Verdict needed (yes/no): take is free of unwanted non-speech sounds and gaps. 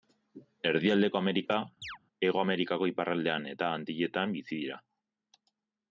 no